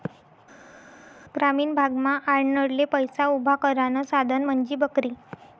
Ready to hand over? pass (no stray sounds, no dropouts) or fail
pass